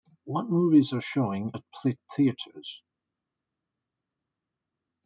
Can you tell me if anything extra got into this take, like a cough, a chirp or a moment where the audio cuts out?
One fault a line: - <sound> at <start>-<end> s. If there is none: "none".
none